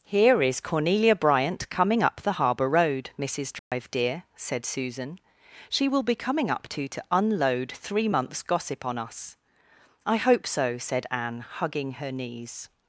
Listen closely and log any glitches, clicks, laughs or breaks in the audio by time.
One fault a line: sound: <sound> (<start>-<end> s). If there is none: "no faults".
sound: dropout (3.6-3.7 s)